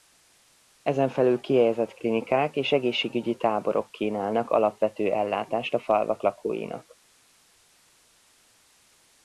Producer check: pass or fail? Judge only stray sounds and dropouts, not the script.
pass